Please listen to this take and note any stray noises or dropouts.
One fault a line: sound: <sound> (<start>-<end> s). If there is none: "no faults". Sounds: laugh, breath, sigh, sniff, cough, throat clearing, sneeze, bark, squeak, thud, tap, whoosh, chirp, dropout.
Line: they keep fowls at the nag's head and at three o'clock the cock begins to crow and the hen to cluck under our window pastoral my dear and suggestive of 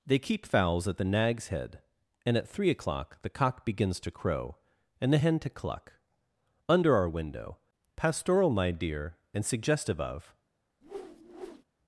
sound: whoosh (10.8-11.6 s)